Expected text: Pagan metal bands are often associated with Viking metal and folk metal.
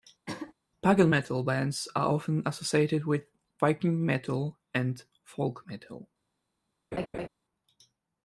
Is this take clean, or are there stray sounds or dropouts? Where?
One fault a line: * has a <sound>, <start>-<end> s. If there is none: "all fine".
* has a throat clearing, 0.3-0.5 s
* has a laugh, 6.9-7.3 s